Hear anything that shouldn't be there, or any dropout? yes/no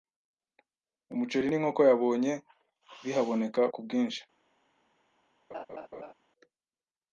yes